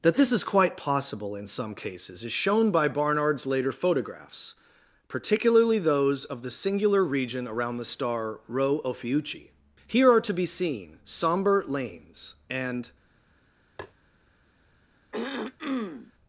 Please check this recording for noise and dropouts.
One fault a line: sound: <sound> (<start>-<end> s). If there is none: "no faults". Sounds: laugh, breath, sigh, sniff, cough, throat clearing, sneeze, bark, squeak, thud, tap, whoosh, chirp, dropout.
sound: tap (13.8-13.9 s)
sound: throat clearing (15.1-16.1 s)